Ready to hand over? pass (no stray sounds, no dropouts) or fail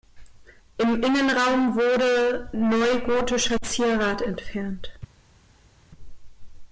pass